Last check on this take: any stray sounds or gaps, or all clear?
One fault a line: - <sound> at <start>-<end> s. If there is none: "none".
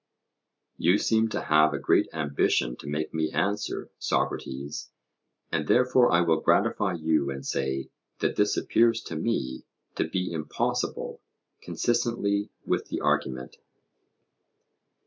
none